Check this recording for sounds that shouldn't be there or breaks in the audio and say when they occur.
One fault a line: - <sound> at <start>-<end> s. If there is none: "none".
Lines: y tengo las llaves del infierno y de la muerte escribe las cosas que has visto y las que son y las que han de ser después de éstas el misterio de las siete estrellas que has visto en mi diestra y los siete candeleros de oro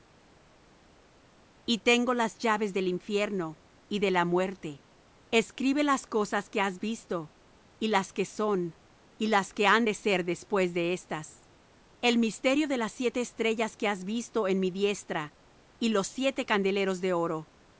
none